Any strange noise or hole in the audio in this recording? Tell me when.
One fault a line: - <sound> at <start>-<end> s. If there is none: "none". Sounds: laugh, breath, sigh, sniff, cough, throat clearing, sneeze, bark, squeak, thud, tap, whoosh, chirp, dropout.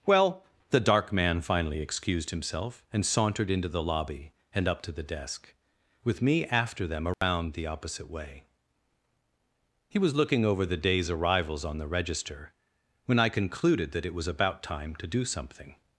- dropout at 7.1-7.2 s